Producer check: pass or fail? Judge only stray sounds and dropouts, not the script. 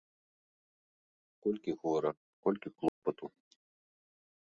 fail